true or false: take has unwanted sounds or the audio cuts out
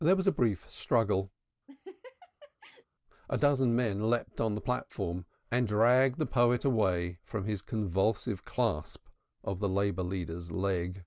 true